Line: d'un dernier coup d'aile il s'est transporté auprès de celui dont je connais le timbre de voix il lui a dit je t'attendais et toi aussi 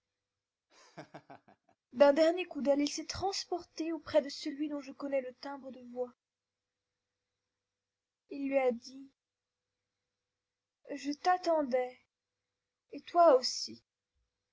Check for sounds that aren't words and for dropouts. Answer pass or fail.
fail